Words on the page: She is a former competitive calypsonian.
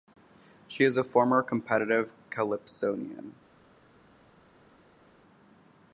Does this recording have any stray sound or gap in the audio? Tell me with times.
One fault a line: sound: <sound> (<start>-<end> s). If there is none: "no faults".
no faults